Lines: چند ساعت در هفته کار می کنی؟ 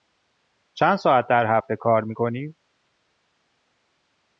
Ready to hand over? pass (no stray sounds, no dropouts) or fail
pass